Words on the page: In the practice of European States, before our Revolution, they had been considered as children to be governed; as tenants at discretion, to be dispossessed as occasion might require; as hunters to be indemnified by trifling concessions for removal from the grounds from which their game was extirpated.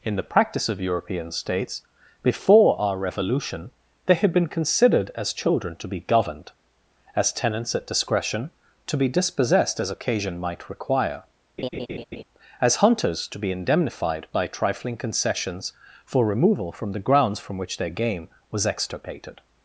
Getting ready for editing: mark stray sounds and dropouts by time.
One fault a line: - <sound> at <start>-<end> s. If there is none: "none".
- laugh at 11.6-12.2 s